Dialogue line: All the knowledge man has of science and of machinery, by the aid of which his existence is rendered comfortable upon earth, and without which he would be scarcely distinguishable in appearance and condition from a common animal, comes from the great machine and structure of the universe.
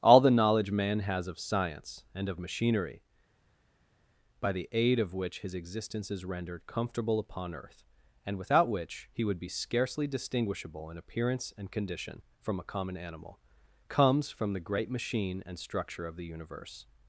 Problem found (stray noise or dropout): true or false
false